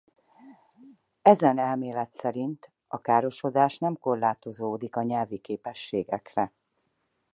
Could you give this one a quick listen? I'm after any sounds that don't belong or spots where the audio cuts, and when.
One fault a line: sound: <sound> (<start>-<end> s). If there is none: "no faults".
no faults